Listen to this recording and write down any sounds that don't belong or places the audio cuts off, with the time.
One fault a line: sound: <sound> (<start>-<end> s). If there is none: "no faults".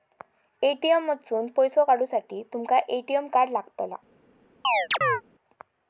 sound: chirp (4.6-5.2 s)